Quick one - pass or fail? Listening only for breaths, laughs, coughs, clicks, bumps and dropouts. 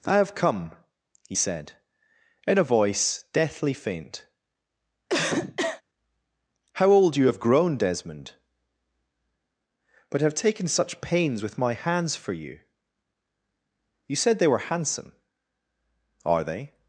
fail